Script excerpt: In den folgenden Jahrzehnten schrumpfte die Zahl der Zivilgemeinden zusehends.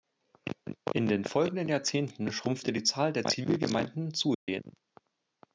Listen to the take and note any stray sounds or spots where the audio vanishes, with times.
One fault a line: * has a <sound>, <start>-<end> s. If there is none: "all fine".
* has a dropout, 4.3-4.5 s